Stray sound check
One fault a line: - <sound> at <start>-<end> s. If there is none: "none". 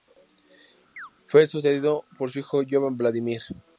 - chirp at 1.0-1.1 s